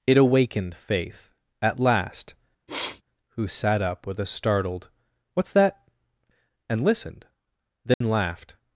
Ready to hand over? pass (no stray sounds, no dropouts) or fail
fail